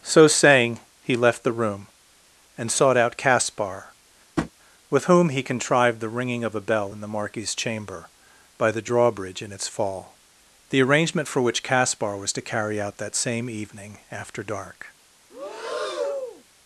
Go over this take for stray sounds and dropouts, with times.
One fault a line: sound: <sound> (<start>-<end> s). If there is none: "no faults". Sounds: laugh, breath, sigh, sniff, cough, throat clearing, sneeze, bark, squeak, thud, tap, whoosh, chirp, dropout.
sound: tap (4.4-4.5 s)
sound: breath (15.3-16.4 s)